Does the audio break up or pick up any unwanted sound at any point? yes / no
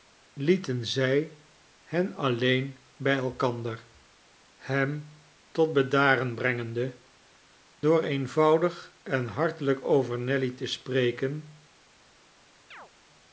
yes